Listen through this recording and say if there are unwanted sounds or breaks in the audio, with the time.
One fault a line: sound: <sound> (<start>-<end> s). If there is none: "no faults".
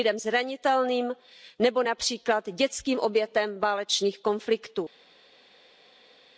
no faults